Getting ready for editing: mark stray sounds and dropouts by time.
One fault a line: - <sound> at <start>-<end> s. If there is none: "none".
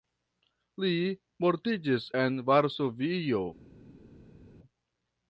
none